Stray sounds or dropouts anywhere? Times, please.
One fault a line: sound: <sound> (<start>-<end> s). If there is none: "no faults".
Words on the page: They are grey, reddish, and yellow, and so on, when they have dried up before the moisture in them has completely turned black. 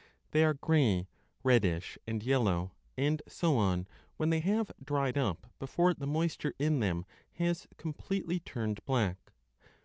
no faults